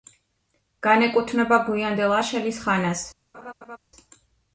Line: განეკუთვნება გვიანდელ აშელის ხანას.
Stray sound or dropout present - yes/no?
yes